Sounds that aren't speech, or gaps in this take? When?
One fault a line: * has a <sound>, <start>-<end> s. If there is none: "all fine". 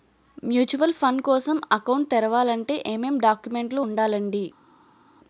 all fine